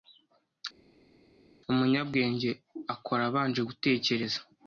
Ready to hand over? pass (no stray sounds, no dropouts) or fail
pass